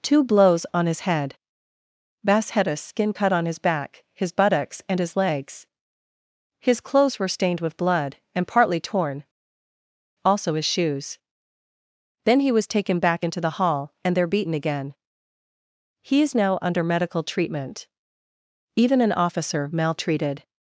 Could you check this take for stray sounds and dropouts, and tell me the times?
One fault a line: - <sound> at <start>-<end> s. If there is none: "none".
none